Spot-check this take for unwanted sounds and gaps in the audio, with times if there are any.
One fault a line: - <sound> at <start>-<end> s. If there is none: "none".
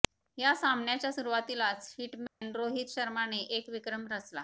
- dropout at 2.3-2.4 s